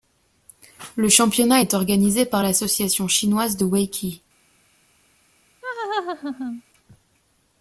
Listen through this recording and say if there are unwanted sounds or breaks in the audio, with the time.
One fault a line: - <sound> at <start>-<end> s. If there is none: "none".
- laugh at 5.6-6.6 s